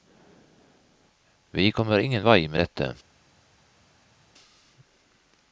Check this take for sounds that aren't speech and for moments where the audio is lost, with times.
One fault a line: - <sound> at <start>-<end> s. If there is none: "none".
none